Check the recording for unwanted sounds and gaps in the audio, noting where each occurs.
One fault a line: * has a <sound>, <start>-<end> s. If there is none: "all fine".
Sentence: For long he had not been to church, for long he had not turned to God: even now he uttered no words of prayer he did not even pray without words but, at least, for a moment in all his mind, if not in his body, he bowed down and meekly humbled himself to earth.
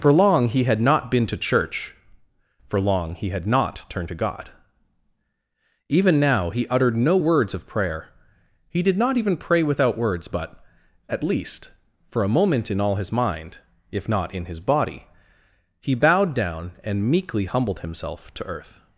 all fine